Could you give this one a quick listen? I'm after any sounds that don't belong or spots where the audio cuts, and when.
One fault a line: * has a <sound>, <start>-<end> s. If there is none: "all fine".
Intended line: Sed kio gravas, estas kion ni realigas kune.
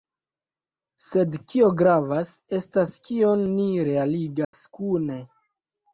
* has a dropout, 4.4-4.5 s